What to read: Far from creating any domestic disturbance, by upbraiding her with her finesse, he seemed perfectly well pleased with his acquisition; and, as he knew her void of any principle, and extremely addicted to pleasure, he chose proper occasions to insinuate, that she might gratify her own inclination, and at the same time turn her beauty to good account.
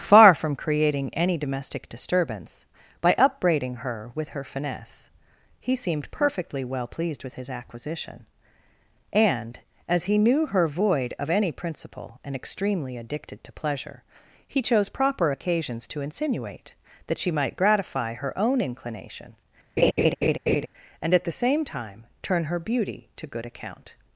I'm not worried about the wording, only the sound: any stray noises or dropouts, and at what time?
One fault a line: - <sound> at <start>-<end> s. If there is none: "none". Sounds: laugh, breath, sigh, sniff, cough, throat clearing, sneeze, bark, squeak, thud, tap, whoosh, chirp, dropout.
- laugh at 19.8-20.7 s